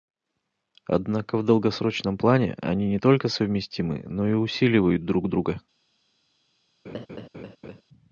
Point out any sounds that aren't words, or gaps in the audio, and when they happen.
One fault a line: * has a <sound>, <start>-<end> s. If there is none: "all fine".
* has a laugh, 6.8-7.8 s